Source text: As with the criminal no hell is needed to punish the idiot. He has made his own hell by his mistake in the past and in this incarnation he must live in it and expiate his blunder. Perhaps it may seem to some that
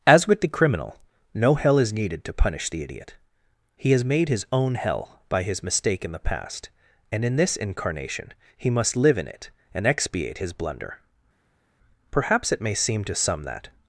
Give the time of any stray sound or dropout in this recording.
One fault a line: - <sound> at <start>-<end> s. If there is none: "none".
none